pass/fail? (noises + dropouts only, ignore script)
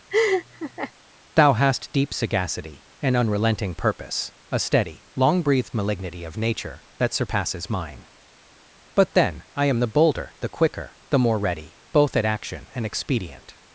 fail